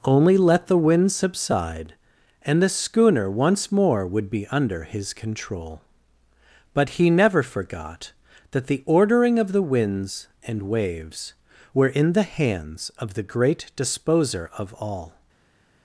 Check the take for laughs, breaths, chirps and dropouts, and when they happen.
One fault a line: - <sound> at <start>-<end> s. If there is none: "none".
none